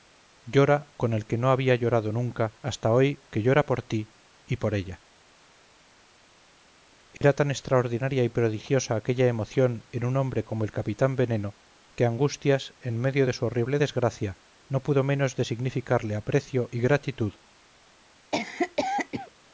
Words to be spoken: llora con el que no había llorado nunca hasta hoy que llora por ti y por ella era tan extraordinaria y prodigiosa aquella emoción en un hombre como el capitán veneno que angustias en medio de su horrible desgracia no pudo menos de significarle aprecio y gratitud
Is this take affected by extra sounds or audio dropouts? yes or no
yes